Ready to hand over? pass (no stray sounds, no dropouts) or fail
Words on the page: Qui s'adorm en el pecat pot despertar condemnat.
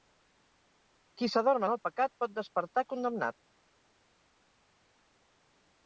pass